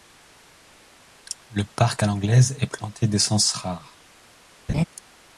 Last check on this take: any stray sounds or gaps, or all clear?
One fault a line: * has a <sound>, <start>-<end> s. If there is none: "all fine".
* has a laugh, 4.7-4.8 s